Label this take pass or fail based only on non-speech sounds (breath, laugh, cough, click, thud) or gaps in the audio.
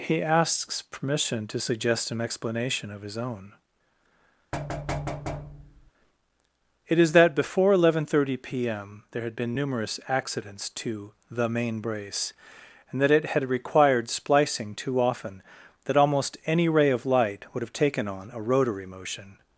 fail